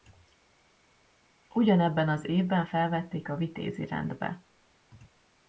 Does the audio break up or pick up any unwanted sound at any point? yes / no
no